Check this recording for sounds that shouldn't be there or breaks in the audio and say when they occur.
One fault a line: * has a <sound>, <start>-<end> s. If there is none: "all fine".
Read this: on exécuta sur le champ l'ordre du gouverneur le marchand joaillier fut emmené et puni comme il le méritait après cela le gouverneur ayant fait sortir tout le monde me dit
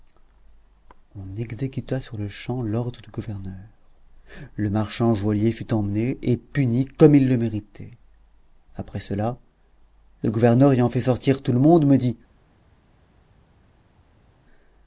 all fine